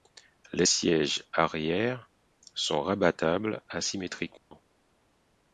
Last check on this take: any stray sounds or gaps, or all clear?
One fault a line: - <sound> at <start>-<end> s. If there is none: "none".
- dropout at 4.4-4.5 s